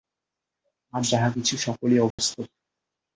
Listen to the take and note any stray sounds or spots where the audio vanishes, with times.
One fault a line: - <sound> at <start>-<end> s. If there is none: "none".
- dropout at 2.1-2.2 s